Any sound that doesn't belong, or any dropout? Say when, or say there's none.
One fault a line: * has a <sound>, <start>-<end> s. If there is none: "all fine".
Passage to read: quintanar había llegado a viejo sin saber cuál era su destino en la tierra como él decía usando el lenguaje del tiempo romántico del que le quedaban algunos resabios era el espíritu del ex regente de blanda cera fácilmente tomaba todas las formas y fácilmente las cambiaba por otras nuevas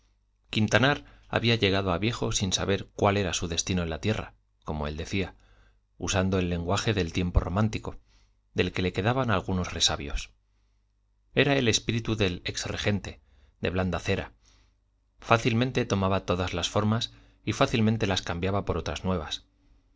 all fine